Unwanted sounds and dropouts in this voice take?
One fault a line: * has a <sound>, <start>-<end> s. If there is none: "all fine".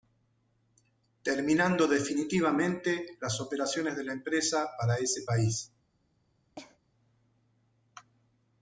* has a cough, 6.6-6.8 s